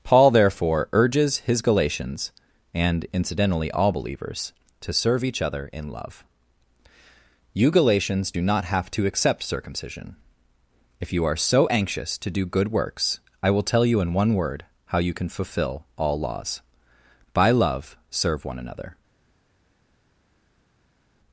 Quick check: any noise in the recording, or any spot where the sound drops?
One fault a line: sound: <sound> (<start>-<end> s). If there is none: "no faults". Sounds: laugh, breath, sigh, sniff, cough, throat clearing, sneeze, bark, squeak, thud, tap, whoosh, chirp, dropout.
no faults